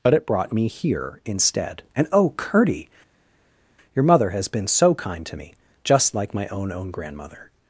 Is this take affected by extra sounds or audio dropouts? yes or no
no